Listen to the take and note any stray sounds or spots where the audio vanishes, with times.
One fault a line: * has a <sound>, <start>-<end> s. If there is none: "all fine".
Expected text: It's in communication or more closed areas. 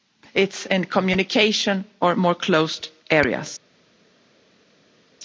all fine